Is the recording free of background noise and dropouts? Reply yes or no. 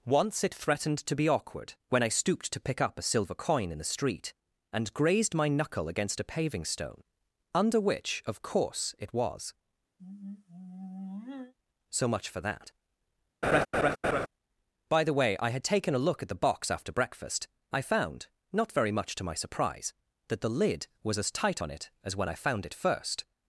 no